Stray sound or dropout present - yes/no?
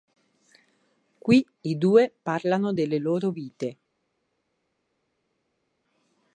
no